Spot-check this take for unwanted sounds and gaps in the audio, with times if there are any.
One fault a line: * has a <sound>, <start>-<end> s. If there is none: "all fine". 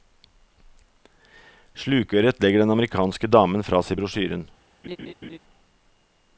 * has a laugh, 4.8-5.4 s